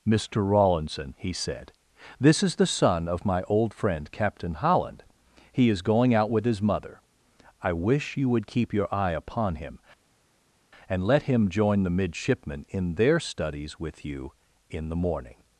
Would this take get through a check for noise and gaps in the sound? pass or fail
pass